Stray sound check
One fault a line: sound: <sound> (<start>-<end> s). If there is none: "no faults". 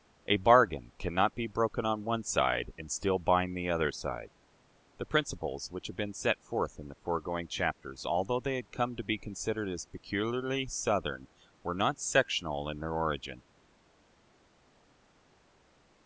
no faults